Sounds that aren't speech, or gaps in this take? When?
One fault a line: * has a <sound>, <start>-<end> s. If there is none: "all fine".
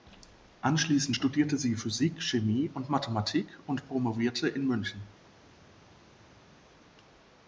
all fine